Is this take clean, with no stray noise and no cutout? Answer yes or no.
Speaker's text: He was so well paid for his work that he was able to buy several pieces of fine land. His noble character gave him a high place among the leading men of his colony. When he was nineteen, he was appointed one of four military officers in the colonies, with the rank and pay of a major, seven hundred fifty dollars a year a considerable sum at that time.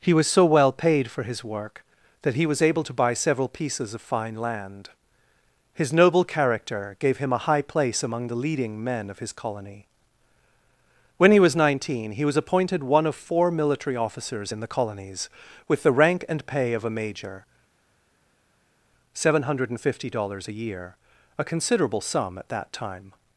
yes